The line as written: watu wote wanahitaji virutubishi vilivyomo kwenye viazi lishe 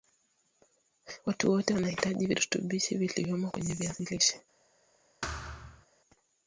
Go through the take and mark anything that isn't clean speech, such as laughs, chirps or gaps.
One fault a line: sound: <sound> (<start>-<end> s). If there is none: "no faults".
sound: thud (5.2-5.9 s)